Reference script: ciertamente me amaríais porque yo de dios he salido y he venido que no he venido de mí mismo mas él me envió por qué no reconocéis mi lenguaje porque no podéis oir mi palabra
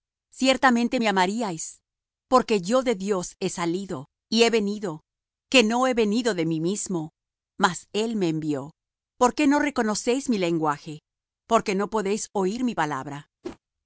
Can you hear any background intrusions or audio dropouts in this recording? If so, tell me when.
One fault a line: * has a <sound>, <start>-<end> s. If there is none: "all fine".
* has a whoosh, 13.4-13.6 s